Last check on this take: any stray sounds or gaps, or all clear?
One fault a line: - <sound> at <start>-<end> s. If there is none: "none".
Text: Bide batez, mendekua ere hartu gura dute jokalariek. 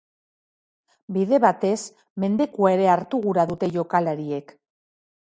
none